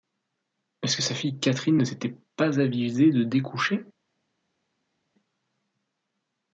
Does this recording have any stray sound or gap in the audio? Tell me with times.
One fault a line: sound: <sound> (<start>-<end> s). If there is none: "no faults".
no faults